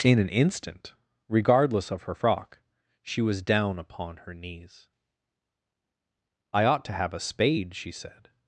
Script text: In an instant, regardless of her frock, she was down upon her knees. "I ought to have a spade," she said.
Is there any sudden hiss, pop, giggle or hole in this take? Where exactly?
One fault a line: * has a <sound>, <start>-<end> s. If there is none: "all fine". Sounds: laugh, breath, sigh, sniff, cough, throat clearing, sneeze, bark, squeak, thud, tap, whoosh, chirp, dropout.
all fine